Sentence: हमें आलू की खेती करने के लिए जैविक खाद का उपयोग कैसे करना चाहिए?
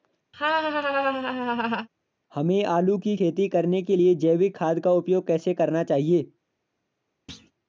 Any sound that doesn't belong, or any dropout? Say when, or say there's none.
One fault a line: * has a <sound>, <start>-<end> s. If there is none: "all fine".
* has a laugh, 0.3-1.9 s
* has a thud, 7.3-7.5 s